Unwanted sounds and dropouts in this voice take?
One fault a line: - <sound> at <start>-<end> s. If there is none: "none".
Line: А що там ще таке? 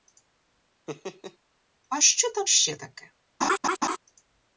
- laugh at 0.9-1.4 s
- laugh at 3.4-4.0 s